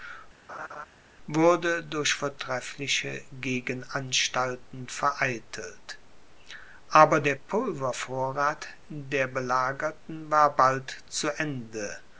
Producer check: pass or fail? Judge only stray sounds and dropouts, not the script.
fail